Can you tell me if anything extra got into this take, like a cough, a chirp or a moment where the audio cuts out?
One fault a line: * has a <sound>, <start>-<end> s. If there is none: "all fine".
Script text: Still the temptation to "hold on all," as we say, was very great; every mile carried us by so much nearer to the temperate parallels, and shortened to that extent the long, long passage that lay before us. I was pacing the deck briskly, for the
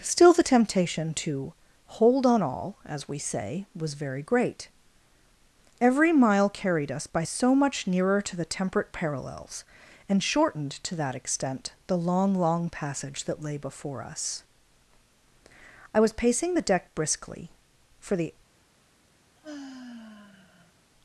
* has a sigh, 19.4-20.7 s